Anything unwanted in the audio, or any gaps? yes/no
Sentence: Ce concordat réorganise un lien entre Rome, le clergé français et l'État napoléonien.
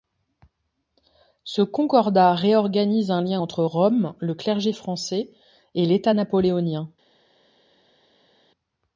no